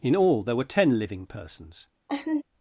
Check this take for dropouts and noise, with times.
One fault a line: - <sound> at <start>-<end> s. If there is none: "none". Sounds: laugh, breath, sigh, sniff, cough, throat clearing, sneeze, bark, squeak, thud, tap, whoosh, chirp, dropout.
- laugh at 2.1-2.4 s